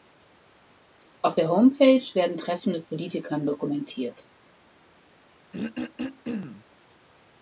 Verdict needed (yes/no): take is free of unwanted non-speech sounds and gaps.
no